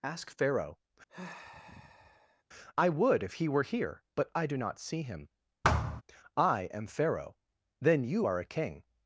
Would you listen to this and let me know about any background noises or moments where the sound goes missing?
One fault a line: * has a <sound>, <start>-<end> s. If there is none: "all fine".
* has a sigh, 1.1-2.4 s
* has a thud, 5.6-6.0 s